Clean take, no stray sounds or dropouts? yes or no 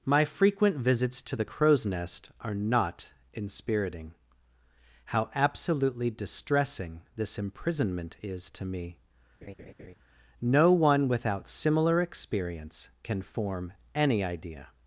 no